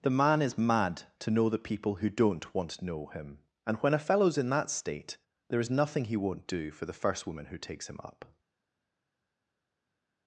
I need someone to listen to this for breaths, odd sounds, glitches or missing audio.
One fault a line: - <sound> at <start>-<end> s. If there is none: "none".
none